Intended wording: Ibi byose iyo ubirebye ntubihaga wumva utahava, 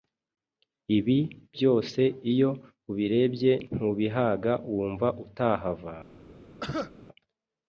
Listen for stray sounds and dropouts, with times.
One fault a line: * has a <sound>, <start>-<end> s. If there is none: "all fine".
* has a cough, 6.6-6.9 s